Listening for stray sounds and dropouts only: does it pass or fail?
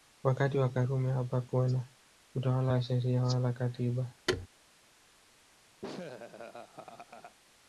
fail